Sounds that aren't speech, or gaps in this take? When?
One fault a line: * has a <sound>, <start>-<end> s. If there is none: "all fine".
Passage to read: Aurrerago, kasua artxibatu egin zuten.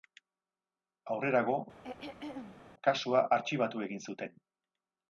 * has a throat clearing, 1.8-2.6 s